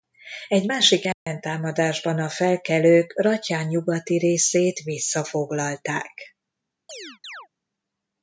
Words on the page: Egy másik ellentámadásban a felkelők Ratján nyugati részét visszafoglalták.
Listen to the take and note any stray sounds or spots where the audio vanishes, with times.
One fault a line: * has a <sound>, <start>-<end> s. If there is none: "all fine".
* has a dropout, 1.1-1.3 s
* has a chirp, 6.9-7.5 s